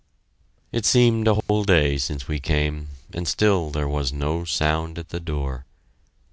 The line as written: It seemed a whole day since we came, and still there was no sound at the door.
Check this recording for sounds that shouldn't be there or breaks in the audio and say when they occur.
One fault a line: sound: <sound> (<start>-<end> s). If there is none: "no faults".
sound: dropout (1.4-1.5 s)